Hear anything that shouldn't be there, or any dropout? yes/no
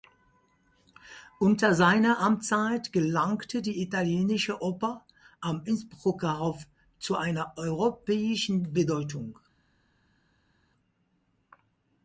no